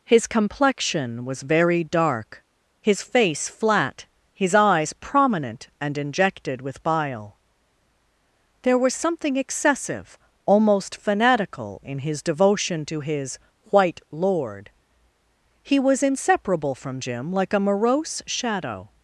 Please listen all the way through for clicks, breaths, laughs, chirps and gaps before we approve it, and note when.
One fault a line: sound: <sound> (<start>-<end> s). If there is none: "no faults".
no faults